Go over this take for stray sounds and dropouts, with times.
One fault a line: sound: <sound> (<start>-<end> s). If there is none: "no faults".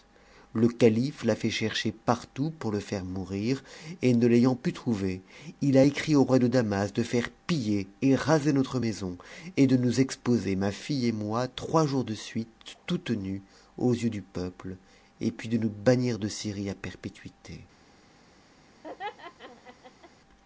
sound: laugh (18.8-20.1 s)